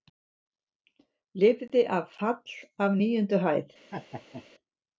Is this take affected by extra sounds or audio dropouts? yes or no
yes